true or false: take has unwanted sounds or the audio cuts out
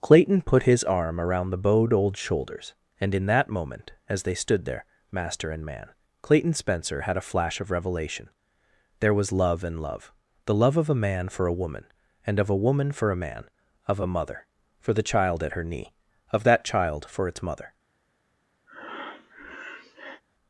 true